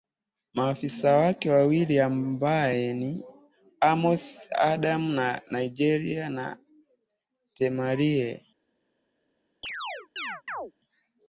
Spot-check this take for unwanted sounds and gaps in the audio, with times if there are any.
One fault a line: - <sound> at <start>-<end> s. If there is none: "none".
- chirp at 9.6-10.7 s